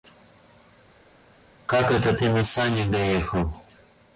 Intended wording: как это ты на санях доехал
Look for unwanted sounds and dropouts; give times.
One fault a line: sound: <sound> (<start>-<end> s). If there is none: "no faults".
no faults